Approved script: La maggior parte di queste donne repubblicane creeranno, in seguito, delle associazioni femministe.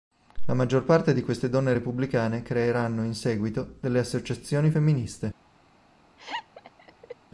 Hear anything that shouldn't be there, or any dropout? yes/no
yes